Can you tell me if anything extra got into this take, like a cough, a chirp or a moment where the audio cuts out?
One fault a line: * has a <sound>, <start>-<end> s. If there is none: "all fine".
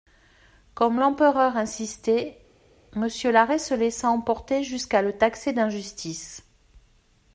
all fine